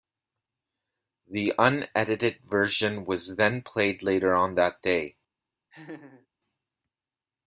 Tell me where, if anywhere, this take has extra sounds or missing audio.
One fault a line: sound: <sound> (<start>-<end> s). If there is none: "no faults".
sound: laugh (5.7-6.3 s)